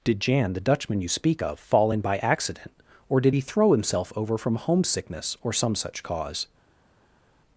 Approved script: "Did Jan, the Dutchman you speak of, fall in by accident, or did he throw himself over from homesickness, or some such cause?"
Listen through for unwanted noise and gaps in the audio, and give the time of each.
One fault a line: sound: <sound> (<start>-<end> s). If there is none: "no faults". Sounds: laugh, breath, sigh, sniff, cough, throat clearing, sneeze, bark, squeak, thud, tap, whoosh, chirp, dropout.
no faults